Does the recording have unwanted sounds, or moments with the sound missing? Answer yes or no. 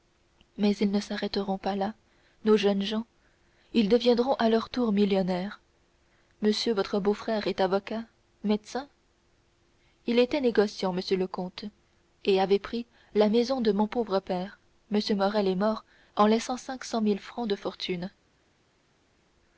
no